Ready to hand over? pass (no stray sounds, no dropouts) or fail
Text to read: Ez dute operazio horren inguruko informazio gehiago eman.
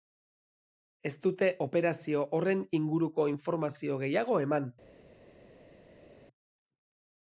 pass